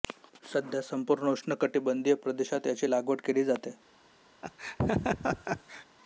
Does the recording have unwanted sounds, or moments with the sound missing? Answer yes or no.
yes